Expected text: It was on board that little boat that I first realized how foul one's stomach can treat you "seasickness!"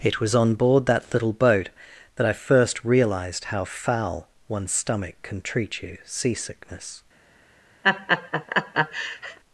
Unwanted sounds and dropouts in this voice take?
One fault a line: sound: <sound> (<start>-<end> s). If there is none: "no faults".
sound: laugh (7.8-9.4 s)